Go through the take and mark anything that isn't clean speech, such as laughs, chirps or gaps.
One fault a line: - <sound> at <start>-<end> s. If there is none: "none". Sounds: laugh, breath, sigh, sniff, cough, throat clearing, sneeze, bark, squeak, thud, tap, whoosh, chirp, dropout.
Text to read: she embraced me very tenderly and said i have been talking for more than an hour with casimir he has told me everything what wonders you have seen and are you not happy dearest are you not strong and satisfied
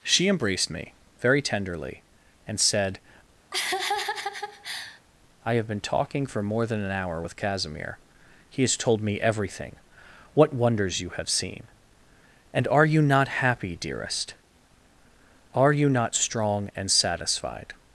- laugh at 3.5-5.0 s